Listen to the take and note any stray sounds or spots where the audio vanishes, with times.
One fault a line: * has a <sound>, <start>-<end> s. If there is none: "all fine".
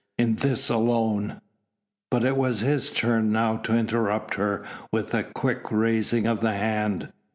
all fine